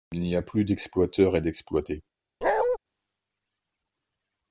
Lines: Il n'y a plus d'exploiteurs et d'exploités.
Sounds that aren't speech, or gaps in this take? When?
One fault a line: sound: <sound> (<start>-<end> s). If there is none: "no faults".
sound: bark (2.4-2.8 s)